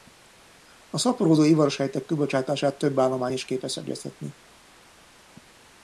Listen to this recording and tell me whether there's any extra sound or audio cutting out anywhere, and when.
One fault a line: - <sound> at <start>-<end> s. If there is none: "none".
none